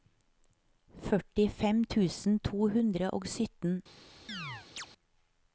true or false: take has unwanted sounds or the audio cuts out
true